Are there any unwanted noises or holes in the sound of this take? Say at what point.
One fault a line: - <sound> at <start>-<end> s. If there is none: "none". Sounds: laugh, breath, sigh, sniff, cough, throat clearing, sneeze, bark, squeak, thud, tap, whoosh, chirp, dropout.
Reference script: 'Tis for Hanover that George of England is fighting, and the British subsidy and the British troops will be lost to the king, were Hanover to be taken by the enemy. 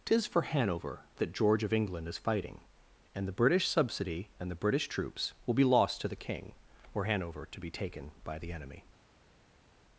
none